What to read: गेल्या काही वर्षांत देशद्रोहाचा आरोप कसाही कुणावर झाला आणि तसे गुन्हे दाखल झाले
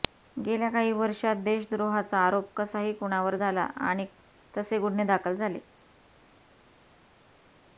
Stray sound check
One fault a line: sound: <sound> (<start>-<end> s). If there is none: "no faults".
no faults